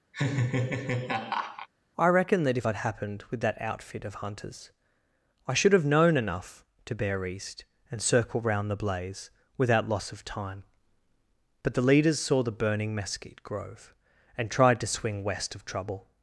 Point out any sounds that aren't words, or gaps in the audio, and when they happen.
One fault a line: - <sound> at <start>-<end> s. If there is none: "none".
- laugh at 0.1-1.7 s